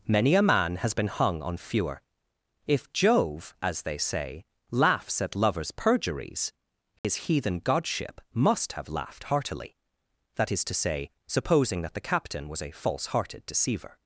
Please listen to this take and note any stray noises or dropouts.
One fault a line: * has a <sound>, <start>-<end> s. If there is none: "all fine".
* has a dropout, 7.0-7.0 s